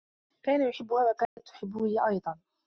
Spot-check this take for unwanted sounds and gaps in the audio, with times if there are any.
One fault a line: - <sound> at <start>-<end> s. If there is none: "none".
- dropout at 1.2-1.4 s